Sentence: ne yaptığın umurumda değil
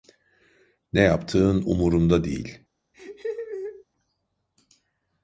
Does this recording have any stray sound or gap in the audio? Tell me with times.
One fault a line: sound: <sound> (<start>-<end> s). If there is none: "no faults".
sound: laugh (2.9-3.8 s)